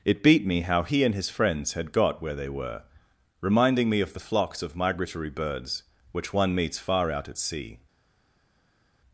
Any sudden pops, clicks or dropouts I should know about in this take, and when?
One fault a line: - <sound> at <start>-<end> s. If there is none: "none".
none